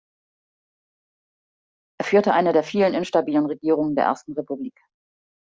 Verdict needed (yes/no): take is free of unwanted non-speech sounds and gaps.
yes